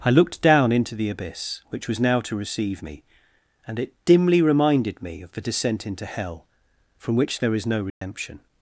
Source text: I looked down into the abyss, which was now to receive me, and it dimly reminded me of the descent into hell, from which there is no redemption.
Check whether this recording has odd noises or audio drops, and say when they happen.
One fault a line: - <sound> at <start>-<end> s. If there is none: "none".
- dropout at 7.9-8.0 s